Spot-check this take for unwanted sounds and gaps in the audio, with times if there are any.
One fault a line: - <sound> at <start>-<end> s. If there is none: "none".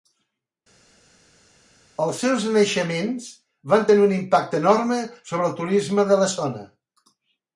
none